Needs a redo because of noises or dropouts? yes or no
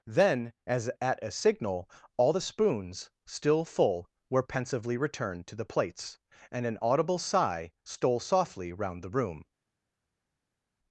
no